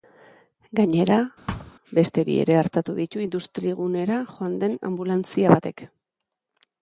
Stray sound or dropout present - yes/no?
yes